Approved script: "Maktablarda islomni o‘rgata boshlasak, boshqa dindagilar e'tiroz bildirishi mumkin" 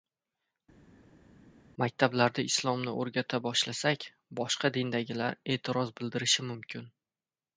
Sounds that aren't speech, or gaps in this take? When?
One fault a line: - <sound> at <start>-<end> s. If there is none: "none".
none